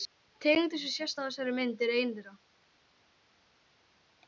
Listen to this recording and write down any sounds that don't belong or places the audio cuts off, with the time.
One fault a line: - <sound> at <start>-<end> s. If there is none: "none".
none